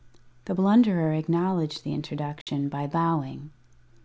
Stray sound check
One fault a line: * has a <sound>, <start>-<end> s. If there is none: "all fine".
* has a dropout, 2.4-2.5 s